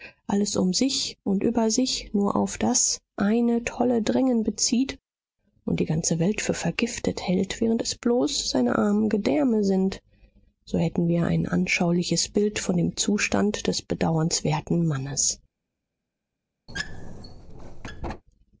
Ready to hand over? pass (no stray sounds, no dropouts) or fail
fail